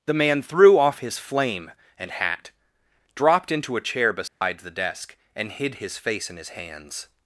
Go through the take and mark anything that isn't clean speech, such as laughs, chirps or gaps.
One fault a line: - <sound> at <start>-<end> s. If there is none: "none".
- dropout at 4.3-4.4 s